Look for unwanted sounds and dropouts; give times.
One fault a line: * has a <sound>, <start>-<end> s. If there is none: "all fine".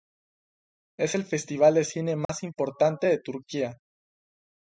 * has a dropout, 2.3-2.3 s